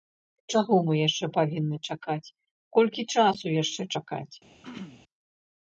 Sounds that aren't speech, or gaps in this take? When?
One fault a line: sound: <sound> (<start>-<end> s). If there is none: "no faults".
sound: throat clearing (4.6-5.0 s)